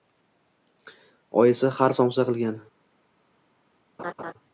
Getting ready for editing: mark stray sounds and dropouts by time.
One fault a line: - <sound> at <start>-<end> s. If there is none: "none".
- laugh at 4.0-4.3 s